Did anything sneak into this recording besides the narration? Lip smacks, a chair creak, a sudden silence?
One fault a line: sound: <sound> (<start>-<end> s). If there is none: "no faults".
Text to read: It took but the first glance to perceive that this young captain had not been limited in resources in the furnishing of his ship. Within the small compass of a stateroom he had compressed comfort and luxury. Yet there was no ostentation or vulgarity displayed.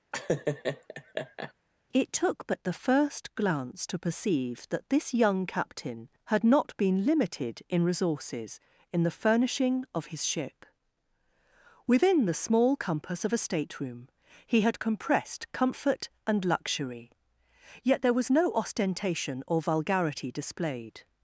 sound: laugh (0.1-1.5 s)